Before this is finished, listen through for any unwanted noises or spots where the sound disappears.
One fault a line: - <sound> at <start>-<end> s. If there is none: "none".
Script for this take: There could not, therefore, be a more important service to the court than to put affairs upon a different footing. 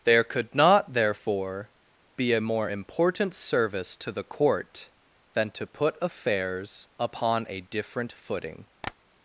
- tap at 8.8-8.9 s